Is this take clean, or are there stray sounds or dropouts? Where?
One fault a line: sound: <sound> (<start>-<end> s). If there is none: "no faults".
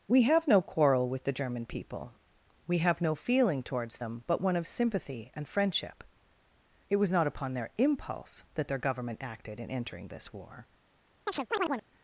sound: chirp (11.3-11.9 s)